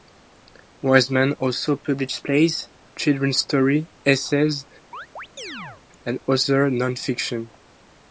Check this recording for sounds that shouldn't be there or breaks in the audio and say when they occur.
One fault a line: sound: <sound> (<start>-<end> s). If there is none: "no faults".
sound: chirp (4.9-5.8 s)